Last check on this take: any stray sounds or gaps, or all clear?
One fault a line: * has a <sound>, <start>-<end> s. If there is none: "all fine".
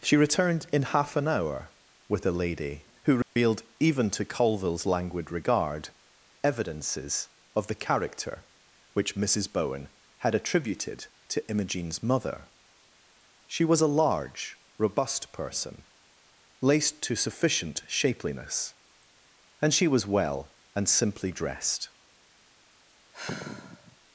* has a dropout, 3.2-3.4 s
* has a sigh, 23.1-24.0 s